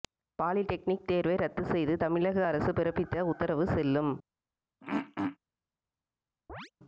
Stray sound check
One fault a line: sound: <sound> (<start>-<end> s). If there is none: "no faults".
sound: throat clearing (4.8-5.4 s)
sound: chirp (6.5-6.7 s)